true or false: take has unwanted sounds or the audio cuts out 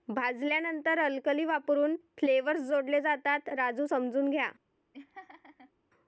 true